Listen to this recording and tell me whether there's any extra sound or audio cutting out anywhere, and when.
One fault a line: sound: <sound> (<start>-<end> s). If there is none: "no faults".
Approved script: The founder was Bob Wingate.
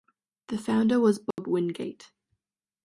sound: dropout (1.3-1.4 s)